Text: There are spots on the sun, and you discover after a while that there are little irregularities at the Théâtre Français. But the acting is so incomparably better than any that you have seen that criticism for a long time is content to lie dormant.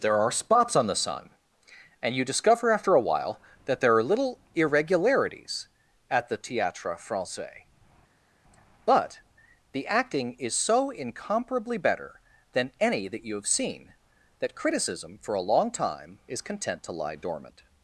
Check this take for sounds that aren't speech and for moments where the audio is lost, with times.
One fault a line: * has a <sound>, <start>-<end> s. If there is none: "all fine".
all fine